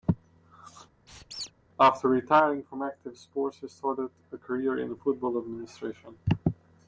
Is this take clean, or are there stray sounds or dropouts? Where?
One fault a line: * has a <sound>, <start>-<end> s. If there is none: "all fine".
* has a squeak, 1.1-1.5 s